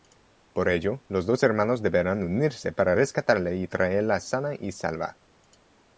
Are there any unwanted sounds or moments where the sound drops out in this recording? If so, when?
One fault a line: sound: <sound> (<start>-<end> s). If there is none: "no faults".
no faults